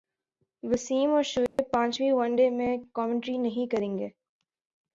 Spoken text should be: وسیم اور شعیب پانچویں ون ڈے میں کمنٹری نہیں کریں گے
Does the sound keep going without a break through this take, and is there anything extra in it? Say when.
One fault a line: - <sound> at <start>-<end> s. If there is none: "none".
- dropout at 1.5-1.6 s